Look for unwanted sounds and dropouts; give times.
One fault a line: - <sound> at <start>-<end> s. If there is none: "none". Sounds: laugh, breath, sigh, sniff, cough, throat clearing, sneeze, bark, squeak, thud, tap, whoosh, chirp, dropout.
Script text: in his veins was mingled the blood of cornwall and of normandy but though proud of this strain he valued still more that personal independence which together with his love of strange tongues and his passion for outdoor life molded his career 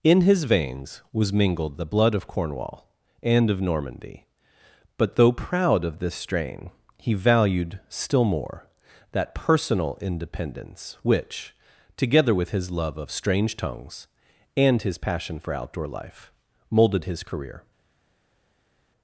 none